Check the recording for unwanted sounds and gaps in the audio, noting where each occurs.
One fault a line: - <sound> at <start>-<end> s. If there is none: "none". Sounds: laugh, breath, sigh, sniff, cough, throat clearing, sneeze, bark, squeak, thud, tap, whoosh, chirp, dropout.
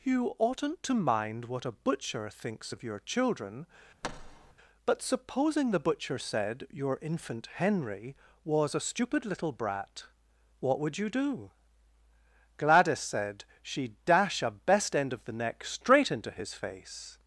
- thud at 4.0-4.5 s